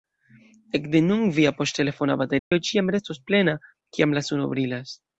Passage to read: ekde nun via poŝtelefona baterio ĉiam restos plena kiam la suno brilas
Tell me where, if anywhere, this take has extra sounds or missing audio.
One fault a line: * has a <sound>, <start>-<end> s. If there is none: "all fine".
* has a dropout, 2.4-2.5 s